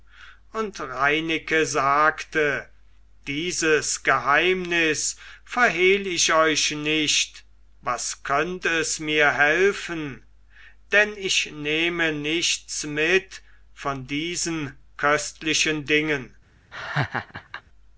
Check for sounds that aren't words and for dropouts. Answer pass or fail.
fail